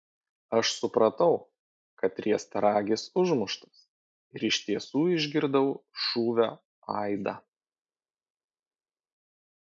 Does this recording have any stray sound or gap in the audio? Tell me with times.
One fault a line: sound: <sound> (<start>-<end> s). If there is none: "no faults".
no faults